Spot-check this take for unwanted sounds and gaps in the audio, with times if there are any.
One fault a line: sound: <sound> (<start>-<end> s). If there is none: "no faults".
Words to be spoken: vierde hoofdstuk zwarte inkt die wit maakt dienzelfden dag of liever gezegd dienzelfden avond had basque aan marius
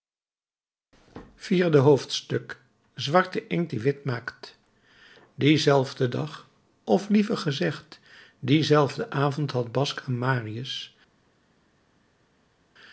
no faults